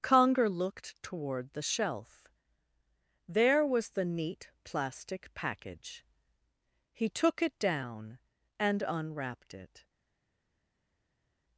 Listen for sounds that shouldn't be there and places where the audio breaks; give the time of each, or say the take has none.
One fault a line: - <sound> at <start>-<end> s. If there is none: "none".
none